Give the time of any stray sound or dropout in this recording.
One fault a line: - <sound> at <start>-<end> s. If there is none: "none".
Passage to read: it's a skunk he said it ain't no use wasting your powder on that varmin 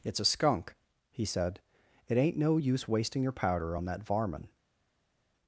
none